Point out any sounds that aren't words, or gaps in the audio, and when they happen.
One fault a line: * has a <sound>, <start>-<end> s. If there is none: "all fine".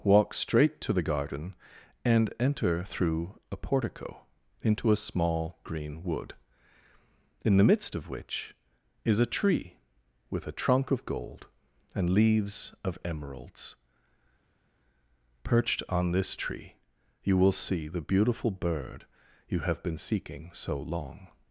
all fine